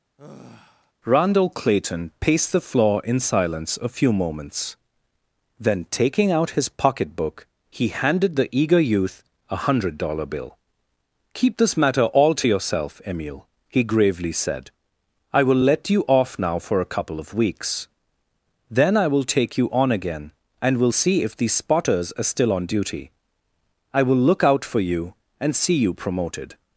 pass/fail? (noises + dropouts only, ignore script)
fail